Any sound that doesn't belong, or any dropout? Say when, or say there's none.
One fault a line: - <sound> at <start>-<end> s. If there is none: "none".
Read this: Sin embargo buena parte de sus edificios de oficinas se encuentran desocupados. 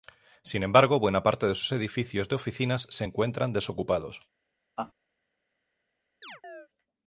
- laugh at 4.8-4.9 s
- chirp at 6.2-6.7 s